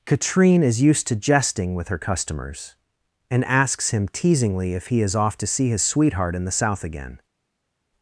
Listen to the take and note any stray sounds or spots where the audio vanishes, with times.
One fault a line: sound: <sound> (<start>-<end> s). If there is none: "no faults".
no faults